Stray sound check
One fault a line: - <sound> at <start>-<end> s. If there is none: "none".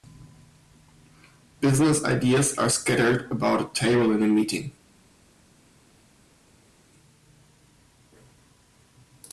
none